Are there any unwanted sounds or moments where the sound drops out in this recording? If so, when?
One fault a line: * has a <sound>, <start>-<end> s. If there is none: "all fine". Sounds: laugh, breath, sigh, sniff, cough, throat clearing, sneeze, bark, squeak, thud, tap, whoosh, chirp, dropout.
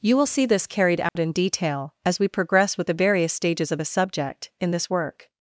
* has a dropout, 1.1-1.2 s